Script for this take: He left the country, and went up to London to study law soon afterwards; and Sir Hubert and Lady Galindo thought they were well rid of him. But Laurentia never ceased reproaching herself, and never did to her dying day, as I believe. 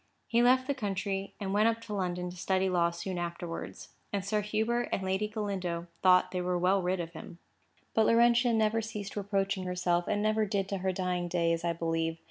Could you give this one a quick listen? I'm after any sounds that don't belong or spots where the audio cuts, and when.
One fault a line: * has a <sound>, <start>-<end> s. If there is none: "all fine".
all fine